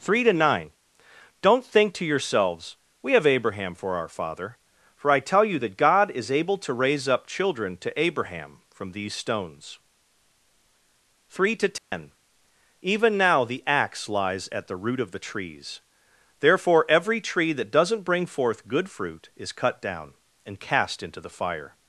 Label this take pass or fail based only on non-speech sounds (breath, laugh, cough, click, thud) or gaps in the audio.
fail